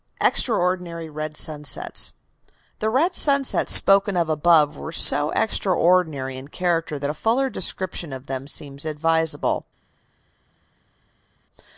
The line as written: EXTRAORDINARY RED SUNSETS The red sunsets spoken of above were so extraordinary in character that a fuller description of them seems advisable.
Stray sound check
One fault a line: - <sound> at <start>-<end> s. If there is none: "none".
none